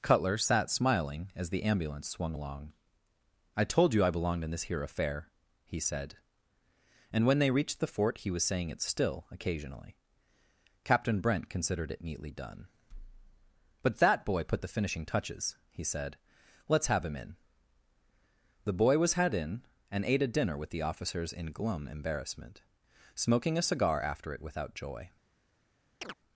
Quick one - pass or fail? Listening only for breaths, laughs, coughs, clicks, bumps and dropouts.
fail